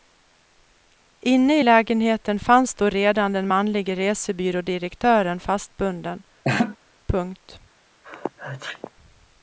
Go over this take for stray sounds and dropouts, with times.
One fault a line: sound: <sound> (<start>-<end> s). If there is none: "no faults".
sound: laugh (6.4-6.8 s)
sound: sneeze (8.0-8.9 s)